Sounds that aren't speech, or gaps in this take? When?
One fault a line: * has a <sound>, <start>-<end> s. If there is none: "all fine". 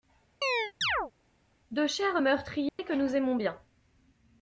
* has a chirp, 0.4-1.1 s
* has a dropout, 2.7-2.8 s